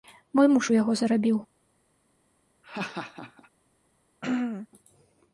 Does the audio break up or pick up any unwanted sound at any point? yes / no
yes